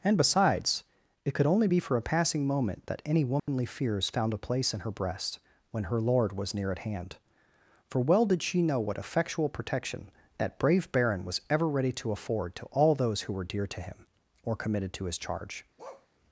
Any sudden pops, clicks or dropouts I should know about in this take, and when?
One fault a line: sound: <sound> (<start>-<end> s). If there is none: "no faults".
sound: dropout (3.4-3.5 s)
sound: bark (15.8-16.1 s)